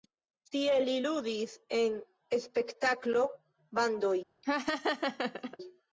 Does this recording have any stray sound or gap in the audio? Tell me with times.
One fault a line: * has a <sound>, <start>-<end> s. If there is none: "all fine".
* has a laugh, 4.4-5.6 s